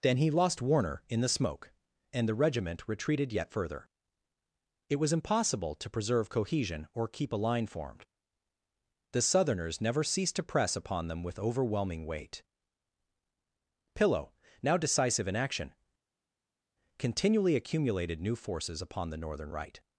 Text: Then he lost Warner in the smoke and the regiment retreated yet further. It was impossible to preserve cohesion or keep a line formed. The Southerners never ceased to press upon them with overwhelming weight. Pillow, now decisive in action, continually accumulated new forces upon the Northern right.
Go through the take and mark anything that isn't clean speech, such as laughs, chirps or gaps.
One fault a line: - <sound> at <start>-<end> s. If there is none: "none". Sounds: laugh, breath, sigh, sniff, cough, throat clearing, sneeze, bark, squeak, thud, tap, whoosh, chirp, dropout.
none